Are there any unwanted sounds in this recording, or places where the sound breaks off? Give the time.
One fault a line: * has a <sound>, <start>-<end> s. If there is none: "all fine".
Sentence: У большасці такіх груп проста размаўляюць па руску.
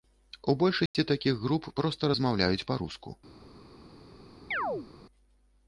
* has a dropout, 0.9-0.9 s
* has a chirp, 4.5-4.9 s